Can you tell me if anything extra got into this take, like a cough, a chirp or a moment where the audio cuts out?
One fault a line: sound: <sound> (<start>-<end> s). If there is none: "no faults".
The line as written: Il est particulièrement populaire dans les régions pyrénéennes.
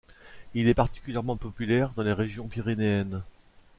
no faults